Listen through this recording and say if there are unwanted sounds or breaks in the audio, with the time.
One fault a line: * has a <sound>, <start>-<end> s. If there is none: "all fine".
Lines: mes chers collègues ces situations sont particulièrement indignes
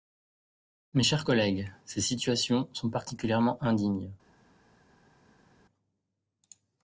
all fine